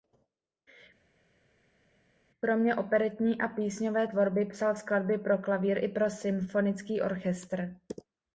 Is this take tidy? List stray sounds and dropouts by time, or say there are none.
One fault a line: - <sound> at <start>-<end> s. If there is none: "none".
none